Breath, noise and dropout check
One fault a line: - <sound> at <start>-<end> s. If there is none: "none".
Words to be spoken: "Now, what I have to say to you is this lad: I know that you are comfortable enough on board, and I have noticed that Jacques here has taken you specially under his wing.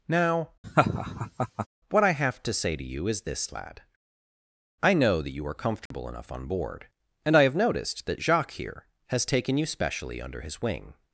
- laugh at 0.6-1.7 s
- dropout at 5.9-5.9 s